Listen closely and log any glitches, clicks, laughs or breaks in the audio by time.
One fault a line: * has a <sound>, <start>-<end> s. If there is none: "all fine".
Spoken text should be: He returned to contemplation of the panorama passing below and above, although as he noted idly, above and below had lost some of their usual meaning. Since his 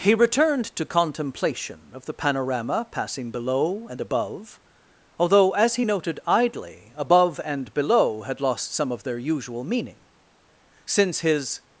all fine